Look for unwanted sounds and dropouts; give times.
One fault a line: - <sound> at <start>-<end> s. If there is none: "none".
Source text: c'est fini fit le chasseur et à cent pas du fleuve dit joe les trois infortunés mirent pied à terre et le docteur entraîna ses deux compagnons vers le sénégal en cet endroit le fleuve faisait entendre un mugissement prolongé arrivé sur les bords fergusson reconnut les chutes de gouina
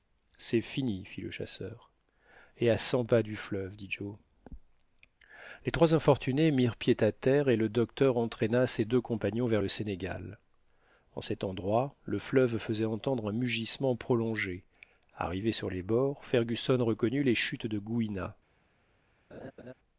- laugh at 19.3-19.7 s